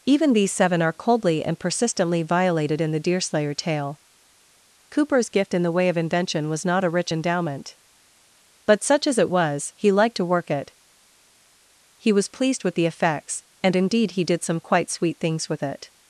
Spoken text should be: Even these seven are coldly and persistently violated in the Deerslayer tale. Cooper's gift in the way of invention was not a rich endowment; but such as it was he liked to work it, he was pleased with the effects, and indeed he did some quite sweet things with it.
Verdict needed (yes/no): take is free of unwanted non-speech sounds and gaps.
yes